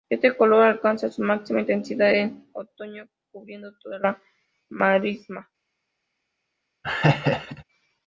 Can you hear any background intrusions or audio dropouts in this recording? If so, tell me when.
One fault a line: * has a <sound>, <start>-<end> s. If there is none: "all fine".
* has a laugh, 6.8-7.6 s